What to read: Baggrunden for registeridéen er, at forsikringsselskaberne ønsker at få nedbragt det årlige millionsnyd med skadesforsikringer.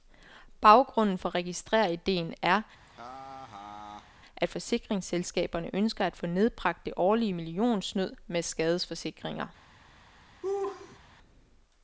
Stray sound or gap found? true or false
true